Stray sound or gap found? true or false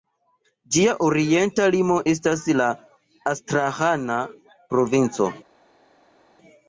false